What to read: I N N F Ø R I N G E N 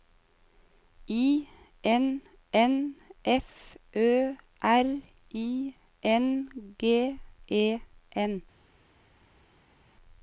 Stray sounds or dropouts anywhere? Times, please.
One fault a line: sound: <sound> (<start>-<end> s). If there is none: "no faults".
no faults